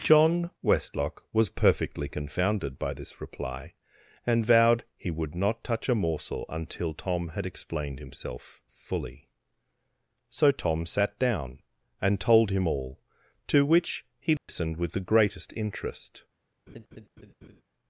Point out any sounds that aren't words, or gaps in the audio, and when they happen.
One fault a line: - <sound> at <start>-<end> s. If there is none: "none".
- dropout at 14.4-14.5 s
- laugh at 16.7-17.6 s